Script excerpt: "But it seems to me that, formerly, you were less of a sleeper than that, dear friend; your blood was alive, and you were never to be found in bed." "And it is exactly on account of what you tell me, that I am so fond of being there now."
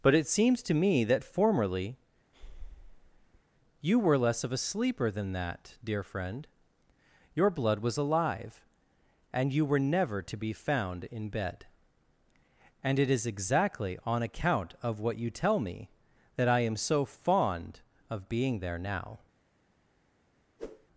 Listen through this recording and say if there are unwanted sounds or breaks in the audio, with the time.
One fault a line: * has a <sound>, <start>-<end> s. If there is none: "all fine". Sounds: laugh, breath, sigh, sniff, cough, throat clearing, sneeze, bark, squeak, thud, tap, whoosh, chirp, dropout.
* has a breath, 2.3-3.4 s
* has a whoosh, 20.6-20.9 s